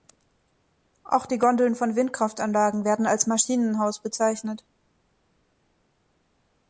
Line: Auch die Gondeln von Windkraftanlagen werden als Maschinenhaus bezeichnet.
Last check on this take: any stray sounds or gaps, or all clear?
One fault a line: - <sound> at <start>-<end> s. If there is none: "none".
none